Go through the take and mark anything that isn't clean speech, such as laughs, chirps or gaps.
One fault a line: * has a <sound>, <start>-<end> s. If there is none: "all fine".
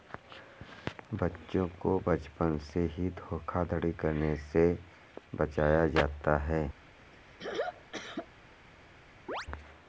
* has a throat clearing, 7.1-8.3 s
* has a chirp, 9.3-9.5 s